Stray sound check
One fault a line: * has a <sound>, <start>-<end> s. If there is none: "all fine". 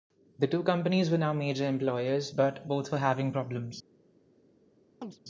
* has a chirp, 5.0-5.2 s